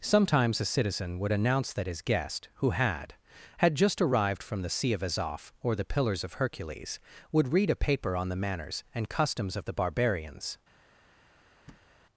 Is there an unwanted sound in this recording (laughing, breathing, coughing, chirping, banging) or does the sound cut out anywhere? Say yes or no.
yes